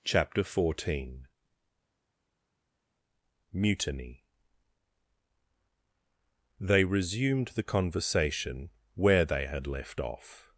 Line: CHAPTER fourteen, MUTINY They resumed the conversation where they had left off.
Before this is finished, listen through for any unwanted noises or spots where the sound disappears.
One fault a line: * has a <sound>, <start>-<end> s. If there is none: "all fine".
all fine